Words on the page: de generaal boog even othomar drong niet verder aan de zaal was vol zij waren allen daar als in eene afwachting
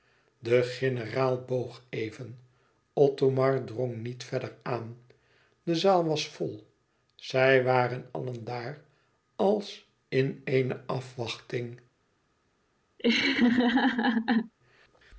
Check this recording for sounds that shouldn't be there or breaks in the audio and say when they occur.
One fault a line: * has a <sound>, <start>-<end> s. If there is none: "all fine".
* has a laugh, 13.0-14.5 s